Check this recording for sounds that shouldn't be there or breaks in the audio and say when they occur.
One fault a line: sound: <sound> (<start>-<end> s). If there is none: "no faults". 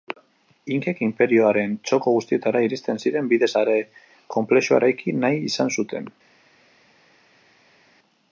no faults